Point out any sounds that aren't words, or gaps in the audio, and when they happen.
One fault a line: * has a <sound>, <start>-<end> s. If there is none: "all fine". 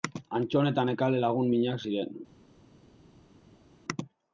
all fine